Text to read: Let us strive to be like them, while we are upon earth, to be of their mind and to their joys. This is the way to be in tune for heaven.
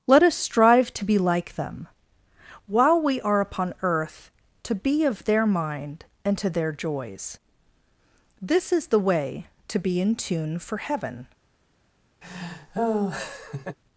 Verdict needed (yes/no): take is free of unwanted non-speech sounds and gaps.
no